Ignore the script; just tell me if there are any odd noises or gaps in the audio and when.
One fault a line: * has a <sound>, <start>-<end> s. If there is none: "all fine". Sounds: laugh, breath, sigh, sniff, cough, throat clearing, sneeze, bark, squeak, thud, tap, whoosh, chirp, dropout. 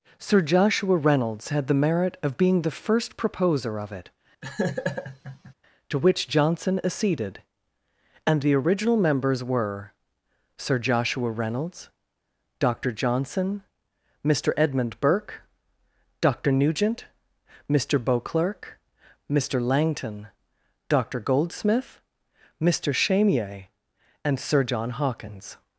* has a laugh, 4.4-5.5 s